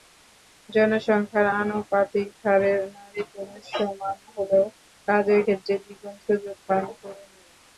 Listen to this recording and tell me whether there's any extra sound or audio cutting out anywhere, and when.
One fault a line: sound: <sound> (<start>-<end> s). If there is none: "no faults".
no faults